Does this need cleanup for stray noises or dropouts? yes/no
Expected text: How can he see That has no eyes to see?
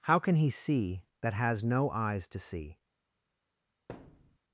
yes